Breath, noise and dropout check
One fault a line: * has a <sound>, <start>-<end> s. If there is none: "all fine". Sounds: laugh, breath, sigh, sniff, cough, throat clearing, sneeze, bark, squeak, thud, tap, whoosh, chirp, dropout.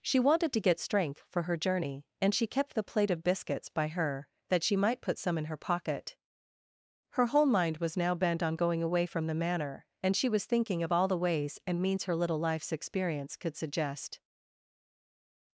all fine